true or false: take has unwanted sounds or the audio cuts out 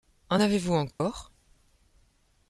true